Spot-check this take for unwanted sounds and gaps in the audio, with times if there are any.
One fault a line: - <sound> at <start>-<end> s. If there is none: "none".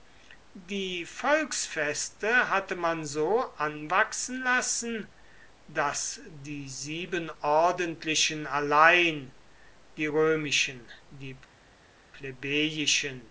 none